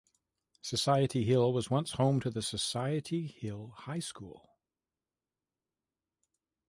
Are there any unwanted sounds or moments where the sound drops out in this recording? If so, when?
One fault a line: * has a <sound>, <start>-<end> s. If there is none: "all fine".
all fine